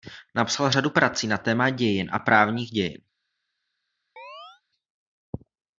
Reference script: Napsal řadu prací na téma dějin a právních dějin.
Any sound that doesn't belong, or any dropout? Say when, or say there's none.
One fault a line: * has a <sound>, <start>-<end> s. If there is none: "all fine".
* has a chirp, 4.2-4.6 s